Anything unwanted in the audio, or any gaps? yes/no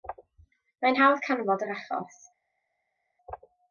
no